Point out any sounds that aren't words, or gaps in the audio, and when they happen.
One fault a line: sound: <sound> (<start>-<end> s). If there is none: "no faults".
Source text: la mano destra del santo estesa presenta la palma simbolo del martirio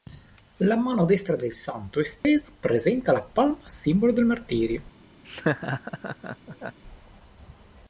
sound: dropout (2.2-2.2 s)
sound: laugh (5.2-6.8 s)